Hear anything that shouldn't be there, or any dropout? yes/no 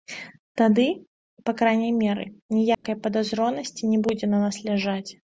yes